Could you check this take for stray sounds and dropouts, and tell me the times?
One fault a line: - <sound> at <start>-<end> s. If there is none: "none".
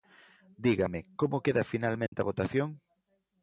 - dropout at 2.1-2.1 s